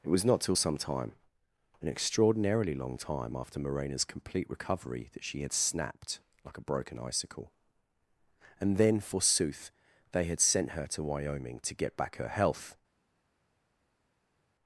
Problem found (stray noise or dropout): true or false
false